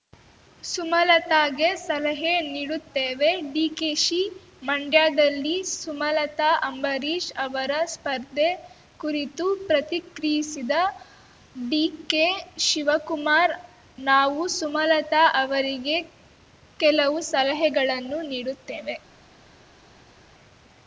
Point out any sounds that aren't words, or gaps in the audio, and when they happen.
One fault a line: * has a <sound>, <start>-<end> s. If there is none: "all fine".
all fine